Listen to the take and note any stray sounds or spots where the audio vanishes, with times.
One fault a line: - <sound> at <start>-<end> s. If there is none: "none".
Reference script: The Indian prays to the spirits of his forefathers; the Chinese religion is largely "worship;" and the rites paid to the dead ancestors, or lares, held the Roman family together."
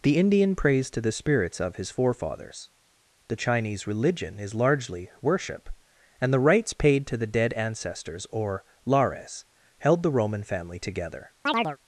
- chirp at 11.5-11.8 s